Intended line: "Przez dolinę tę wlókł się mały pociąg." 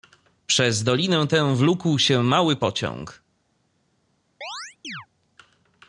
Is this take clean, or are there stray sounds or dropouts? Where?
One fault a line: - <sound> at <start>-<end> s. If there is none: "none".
- chirp at 4.4-5.1 s